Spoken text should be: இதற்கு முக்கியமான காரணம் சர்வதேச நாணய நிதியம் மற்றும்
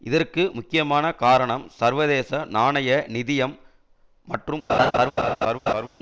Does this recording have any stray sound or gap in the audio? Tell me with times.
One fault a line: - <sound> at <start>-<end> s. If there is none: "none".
- laugh at 4.7-5.9 s